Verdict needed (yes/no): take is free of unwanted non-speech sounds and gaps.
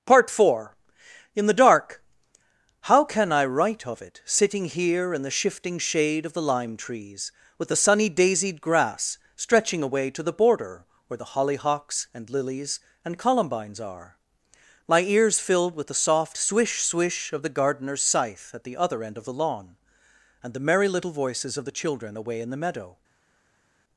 yes